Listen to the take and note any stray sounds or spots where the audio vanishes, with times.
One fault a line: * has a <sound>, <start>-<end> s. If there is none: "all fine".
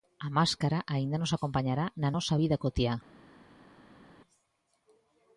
all fine